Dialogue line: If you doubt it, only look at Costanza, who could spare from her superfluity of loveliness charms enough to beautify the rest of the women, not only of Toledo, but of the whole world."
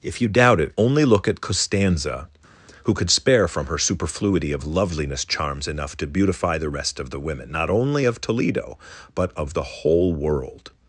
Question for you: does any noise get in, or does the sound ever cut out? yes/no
no